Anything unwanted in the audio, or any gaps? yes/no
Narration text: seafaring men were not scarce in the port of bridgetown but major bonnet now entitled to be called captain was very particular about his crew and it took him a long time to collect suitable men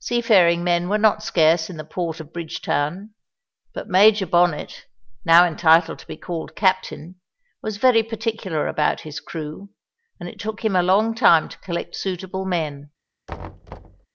yes